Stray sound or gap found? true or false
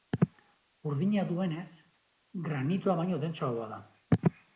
false